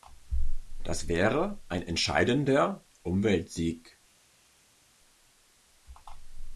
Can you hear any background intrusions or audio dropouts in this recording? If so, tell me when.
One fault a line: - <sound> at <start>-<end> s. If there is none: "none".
none